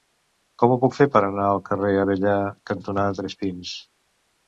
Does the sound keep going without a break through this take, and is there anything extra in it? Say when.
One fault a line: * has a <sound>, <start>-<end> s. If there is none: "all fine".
all fine